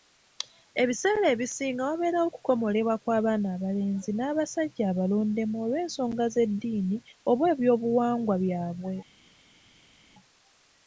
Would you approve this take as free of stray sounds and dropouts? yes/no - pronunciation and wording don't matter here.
yes